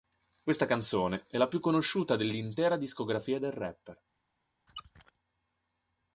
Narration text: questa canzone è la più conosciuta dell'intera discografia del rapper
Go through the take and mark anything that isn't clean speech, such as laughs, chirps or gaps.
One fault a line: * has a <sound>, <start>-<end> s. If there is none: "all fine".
* has a squeak, 4.7-5.1 s